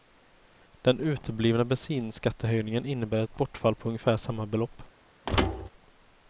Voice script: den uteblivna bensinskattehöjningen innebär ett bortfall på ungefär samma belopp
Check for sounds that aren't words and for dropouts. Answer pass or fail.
fail